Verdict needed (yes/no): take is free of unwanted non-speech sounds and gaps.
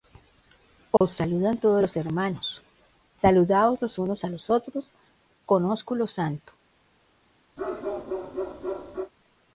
no